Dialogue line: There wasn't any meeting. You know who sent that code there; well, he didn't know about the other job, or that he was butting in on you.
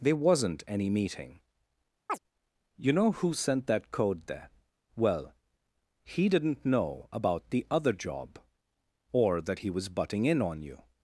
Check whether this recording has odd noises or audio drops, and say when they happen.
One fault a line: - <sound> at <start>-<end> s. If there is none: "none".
- chirp at 2.1-2.2 s